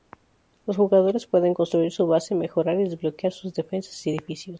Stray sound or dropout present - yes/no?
no